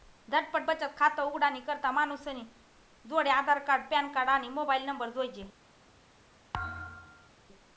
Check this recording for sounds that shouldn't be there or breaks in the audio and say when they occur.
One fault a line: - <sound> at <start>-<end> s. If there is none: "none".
- thud at 6.5-7.3 s